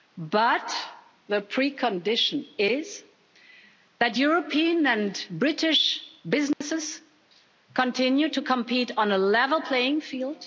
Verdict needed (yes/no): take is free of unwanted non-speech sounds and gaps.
no